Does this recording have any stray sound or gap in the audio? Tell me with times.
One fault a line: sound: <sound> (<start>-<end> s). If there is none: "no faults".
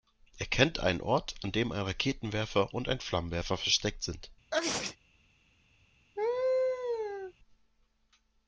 sound: sneeze (4.5-5.0 s)
sound: laugh (6.2-7.3 s)